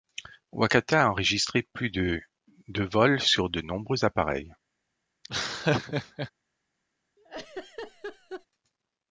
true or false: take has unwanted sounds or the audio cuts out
true